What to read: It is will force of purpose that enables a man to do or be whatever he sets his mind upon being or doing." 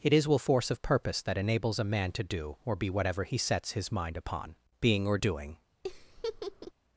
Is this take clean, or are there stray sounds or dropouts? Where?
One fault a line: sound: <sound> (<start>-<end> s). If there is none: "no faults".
sound: laugh (5.8-6.7 s)